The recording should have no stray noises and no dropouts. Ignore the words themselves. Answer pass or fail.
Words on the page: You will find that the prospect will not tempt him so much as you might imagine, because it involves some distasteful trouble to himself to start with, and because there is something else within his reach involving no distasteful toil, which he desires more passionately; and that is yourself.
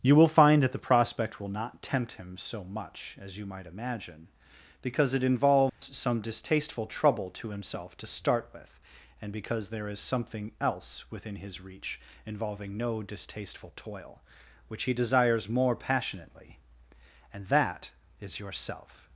fail